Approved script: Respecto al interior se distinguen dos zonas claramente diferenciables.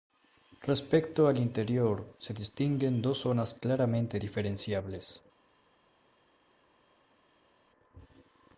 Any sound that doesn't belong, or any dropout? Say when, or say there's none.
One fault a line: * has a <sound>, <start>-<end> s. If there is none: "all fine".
all fine